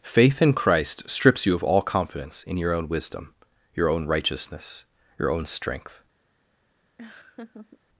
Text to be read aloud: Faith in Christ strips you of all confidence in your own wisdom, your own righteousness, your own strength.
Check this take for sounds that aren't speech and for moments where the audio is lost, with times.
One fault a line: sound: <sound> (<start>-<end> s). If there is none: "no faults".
sound: laugh (7.0-7.8 s)